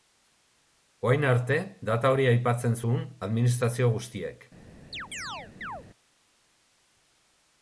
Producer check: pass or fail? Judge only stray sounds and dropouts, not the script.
fail